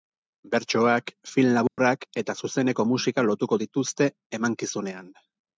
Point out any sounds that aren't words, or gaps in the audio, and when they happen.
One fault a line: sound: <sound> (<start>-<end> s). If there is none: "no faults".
sound: dropout (1.7-1.8 s)